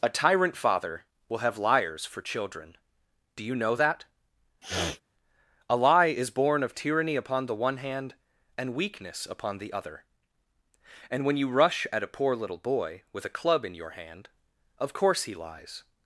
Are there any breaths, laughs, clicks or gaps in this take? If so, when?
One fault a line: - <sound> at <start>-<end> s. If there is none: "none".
- sniff at 4.6-5.0 s